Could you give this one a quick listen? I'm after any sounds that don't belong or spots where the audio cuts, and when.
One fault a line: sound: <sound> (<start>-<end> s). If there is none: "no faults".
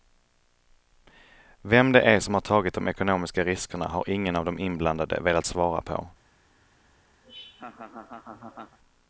sound: laugh (7.2-8.8 s)